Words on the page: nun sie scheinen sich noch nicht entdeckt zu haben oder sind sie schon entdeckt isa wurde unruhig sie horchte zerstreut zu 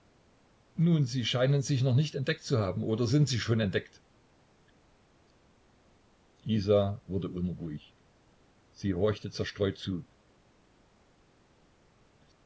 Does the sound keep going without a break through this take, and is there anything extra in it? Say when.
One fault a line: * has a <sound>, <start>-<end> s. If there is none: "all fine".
all fine